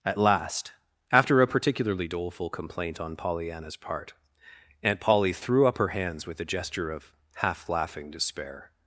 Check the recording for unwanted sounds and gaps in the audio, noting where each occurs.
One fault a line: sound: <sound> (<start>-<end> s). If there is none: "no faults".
no faults